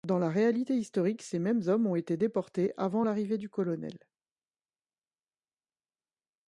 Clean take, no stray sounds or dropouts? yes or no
yes